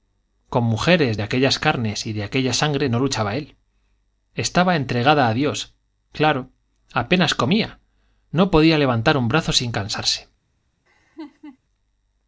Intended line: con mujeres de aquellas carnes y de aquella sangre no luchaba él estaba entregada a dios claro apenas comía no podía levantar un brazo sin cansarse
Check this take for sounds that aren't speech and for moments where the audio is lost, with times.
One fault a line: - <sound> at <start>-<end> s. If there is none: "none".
- laugh at 10.9-11.6 s